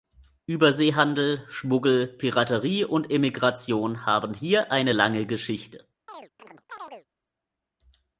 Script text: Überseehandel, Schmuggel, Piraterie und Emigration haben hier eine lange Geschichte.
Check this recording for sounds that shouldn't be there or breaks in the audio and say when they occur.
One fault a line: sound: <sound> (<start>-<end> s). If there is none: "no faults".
sound: chirp (6.1-7.1 s)